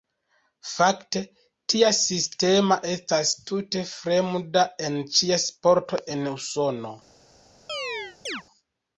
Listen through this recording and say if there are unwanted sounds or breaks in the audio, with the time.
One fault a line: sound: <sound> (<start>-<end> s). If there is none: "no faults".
sound: chirp (7.7-8.4 s)